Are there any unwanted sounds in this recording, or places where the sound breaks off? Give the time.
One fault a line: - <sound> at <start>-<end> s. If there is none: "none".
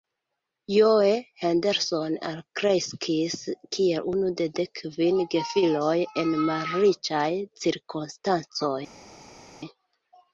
none